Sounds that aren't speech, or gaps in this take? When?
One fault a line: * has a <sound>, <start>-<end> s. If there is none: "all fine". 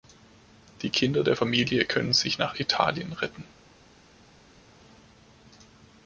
all fine